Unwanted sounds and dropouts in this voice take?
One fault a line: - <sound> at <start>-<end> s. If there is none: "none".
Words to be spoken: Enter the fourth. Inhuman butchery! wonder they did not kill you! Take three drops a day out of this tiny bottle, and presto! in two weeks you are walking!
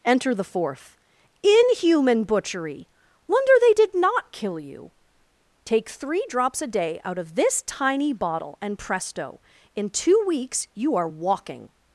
none